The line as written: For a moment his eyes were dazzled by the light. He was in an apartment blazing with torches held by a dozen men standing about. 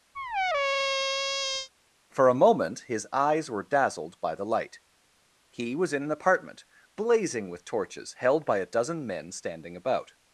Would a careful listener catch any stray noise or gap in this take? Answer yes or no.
yes